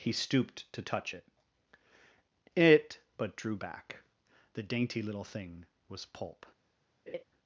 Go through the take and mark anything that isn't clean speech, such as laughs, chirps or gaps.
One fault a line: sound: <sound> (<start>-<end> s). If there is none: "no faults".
sound: laugh (7.1-7.2 s)